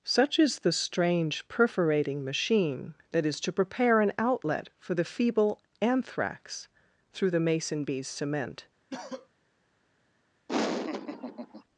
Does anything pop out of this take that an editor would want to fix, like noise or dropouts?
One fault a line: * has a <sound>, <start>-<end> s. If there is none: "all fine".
* has a cough, 8.9-9.3 s
* has a laugh, 10.5-11.6 s